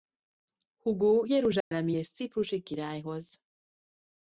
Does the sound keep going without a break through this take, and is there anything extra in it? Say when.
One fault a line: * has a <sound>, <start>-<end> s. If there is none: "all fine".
* has a dropout, 1.6-1.7 s